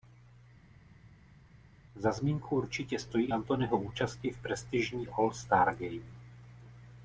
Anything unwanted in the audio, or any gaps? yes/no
no